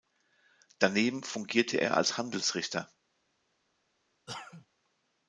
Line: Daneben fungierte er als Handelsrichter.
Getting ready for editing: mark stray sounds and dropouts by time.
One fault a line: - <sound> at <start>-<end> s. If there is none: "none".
- cough at 4.3-4.7 s